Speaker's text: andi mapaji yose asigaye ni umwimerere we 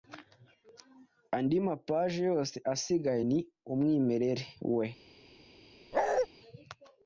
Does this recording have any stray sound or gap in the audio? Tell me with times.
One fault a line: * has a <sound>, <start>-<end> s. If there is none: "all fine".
* has a bark, 5.9-6.3 s